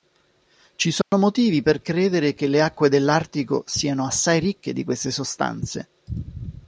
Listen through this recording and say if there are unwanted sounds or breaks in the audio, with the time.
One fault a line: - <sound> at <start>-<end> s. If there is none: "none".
- dropout at 1.0-1.1 s